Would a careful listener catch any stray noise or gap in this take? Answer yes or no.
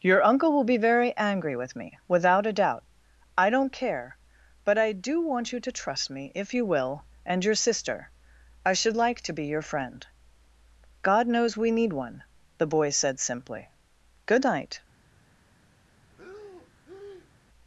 yes